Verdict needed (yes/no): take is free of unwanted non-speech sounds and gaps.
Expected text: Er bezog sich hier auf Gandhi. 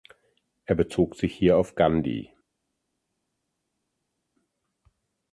yes